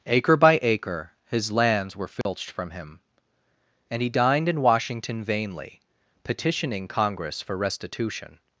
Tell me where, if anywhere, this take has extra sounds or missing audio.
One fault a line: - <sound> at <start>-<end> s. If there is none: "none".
- dropout at 2.2-2.3 s